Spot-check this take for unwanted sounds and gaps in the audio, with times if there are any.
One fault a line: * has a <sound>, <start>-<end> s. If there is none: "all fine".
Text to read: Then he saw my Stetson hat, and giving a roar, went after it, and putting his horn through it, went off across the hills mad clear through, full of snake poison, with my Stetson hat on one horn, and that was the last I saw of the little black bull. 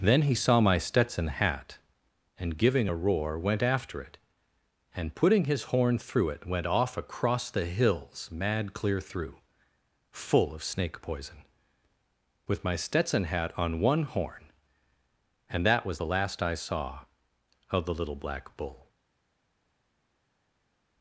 all fine